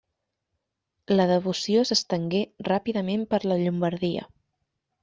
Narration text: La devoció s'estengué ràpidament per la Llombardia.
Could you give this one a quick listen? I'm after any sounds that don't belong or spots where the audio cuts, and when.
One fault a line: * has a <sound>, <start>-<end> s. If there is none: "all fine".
all fine